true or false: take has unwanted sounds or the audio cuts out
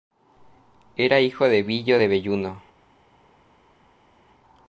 false